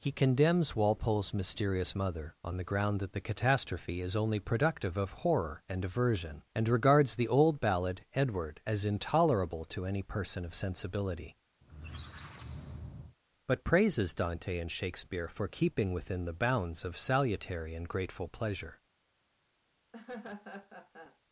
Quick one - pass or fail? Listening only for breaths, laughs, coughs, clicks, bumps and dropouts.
fail